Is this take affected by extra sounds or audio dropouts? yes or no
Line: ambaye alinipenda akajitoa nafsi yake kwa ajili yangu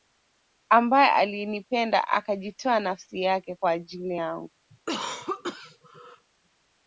yes